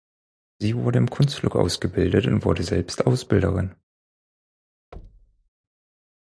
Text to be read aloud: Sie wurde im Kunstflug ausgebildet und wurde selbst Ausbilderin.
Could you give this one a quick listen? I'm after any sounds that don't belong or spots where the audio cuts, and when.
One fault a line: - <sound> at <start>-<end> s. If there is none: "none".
- thud at 4.9-5.5 s